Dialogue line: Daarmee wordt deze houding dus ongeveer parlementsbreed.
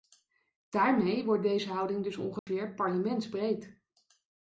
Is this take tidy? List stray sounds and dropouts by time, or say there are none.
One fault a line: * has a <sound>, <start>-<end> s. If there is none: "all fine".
* has a dropout, 2.4-2.5 s